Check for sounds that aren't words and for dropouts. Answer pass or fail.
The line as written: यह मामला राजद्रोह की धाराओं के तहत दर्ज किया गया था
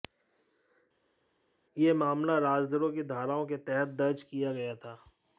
pass